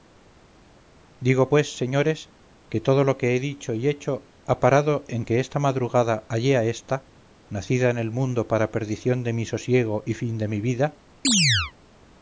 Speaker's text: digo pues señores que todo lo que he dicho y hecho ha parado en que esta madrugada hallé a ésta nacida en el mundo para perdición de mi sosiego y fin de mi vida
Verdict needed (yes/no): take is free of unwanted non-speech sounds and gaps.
no